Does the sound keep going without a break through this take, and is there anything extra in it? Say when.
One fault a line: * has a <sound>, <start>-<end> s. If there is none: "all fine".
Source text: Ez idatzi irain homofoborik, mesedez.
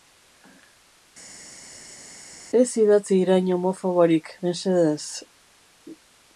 all fine